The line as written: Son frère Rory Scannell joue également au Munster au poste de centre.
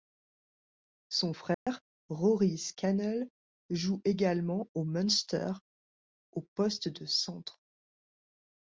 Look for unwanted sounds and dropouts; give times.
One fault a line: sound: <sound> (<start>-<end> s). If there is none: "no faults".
sound: dropout (1.5-1.7 s)